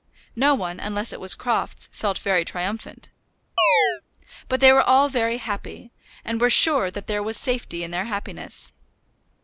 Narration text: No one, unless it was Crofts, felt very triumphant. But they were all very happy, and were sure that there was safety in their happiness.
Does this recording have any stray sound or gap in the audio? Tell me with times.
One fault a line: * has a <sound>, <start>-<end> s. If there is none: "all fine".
* has a chirp, 3.6-4.0 s